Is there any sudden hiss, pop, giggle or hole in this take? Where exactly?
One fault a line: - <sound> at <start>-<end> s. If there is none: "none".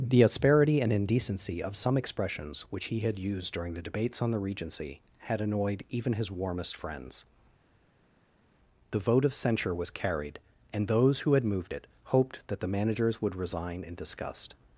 none